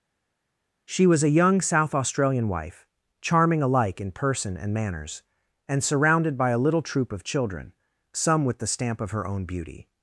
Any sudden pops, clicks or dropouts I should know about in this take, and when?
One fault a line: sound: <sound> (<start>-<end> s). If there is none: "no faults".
no faults